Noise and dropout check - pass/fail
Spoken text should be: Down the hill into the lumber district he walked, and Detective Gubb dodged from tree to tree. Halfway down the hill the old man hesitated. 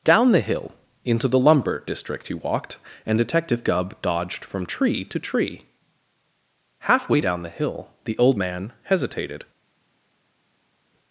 pass